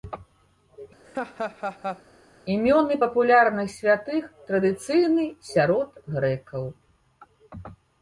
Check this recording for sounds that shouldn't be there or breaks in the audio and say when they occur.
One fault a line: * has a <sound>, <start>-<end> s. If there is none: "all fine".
* has a laugh, 1.0-2.0 s